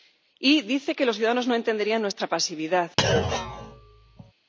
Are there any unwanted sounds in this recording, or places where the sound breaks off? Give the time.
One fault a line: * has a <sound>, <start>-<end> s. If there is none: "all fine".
* has a thud, 3.0-4.3 s